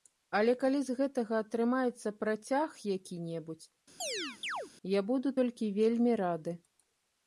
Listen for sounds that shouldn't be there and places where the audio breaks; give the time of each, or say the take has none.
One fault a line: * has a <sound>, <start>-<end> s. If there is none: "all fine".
* has a chirp, 4.0-4.7 s